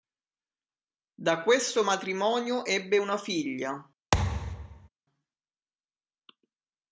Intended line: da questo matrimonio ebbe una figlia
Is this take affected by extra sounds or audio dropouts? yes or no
yes